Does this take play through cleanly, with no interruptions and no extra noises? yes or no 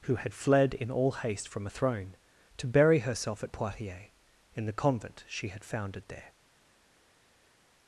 yes